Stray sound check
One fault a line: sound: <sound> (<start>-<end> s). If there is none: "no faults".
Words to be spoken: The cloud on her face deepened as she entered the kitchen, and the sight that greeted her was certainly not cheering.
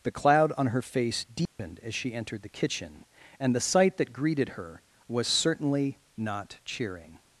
sound: dropout (1.5-1.6 s)